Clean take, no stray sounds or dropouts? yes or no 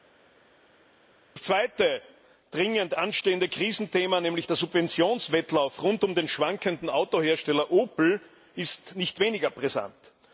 yes